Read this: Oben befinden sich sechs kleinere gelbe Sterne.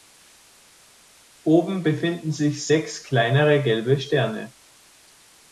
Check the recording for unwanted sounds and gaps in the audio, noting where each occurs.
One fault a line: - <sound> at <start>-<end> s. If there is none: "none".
none